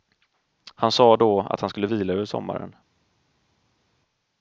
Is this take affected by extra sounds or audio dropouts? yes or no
no